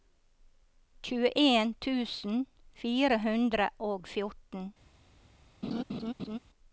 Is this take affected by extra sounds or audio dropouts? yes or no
yes